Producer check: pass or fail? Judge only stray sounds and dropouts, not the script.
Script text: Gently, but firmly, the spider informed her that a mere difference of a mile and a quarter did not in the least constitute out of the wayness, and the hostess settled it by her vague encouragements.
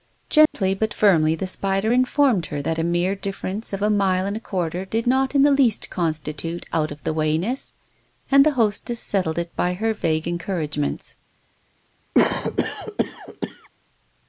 fail